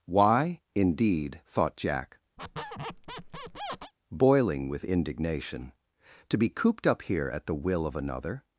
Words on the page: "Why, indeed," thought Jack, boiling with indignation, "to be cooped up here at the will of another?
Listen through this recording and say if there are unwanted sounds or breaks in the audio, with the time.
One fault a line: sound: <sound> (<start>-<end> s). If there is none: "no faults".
sound: squeak (2.4-3.9 s)